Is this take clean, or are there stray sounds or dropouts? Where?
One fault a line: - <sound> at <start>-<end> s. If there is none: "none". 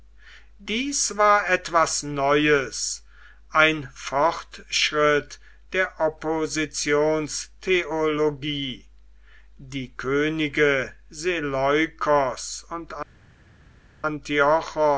none